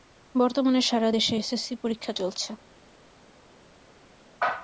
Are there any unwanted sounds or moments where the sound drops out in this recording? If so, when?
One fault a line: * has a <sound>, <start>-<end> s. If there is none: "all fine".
all fine